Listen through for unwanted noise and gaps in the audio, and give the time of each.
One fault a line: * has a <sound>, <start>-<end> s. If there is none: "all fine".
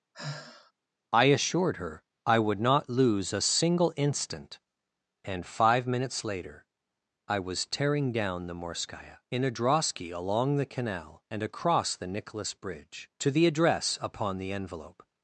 * has a sigh, 0.1-0.7 s